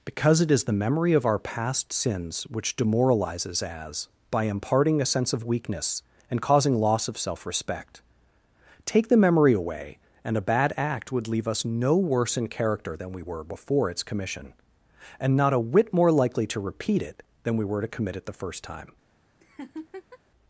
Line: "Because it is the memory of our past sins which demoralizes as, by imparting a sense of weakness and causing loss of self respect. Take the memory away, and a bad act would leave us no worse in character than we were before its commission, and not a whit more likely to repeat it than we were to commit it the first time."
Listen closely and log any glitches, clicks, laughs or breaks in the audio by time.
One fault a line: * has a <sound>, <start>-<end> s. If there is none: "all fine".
* has a laugh, 19.4-20.2 s